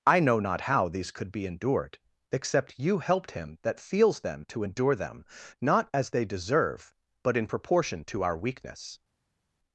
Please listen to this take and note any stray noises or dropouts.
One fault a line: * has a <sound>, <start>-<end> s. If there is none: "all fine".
all fine